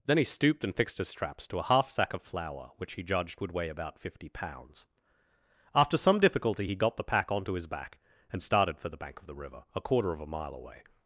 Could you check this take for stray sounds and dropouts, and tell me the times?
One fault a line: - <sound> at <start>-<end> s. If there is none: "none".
none